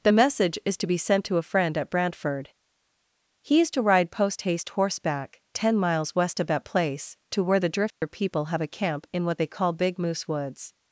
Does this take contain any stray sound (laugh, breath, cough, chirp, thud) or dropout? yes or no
yes